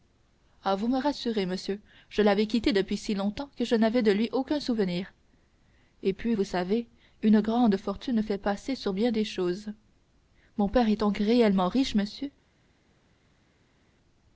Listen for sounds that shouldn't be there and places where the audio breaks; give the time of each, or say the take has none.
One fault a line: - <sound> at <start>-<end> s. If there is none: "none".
none